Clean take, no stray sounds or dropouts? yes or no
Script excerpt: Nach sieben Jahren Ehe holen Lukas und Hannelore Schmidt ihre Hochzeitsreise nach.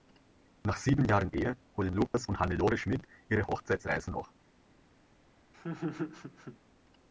no